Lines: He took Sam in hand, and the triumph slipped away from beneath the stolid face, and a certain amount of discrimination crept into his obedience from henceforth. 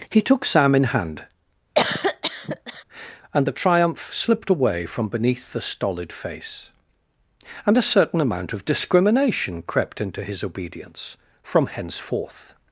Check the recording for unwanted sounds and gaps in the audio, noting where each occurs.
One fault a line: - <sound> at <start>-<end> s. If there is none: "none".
- cough at 1.8-2.8 s